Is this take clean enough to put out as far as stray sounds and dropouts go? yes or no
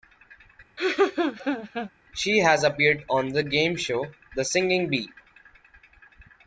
no